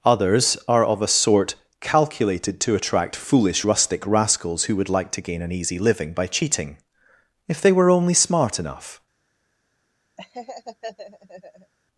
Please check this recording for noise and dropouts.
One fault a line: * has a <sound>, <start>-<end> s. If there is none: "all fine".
* has a laugh, 10.2-11.7 s